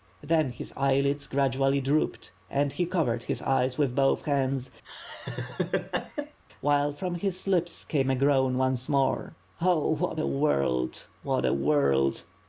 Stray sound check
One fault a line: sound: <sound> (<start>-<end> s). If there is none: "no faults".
sound: laugh (4.8-6.4 s)